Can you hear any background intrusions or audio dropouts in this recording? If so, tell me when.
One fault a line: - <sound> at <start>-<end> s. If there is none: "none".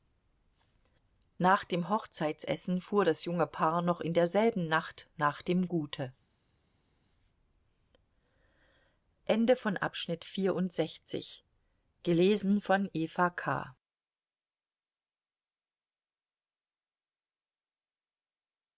none